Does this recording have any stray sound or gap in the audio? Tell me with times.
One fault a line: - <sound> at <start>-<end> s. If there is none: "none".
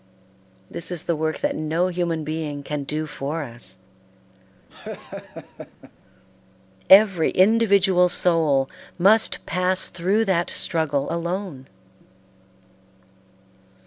- laugh at 4.7-5.9 s